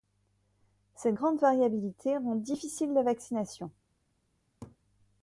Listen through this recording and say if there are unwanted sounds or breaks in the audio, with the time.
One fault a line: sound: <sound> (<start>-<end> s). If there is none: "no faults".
sound: laugh (4.6-4.8 s)